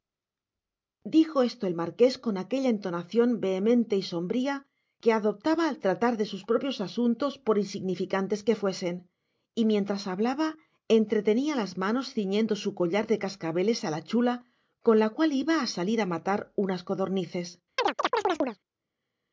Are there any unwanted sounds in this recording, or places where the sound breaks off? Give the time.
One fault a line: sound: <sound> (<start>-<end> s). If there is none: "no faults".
sound: chirp (17.8-18.6 s)